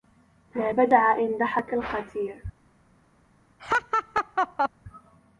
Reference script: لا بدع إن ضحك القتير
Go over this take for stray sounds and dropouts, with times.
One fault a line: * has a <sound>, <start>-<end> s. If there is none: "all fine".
* has a laugh, 3.6-4.7 s